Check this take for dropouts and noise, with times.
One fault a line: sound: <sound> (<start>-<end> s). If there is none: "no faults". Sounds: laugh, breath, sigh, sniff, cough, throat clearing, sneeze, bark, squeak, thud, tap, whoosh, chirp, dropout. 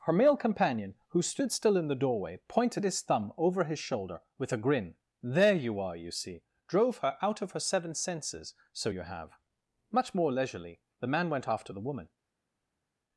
no faults